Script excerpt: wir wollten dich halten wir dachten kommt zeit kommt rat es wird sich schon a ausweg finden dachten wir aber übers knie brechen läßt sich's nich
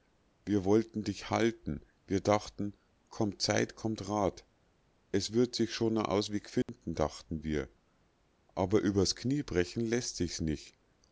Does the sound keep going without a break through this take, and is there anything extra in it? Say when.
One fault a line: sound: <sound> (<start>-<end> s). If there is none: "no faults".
sound: dropout (6.6-6.7 s)